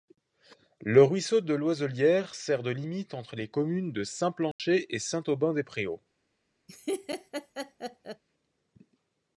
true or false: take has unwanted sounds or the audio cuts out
true